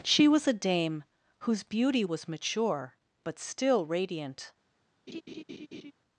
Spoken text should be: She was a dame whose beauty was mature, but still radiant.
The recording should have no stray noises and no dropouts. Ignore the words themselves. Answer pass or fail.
fail